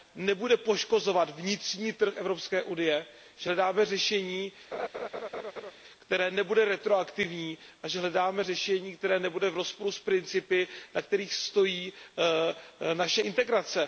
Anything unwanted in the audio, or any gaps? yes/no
yes